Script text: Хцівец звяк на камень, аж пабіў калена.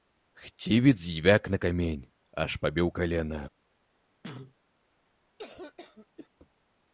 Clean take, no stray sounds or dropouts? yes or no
no